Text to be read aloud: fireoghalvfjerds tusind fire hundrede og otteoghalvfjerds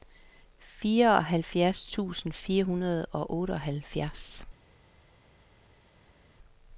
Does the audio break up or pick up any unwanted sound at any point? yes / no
no